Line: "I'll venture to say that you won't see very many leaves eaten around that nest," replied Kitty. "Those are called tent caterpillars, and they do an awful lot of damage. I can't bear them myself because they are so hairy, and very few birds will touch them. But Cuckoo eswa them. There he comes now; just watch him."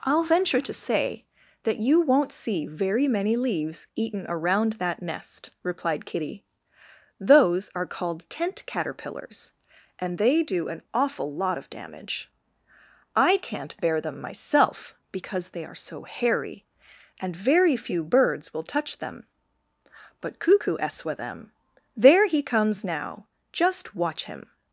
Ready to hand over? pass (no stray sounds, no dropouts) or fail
pass